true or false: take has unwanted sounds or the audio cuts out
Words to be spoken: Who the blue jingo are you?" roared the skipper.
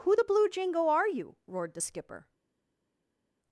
false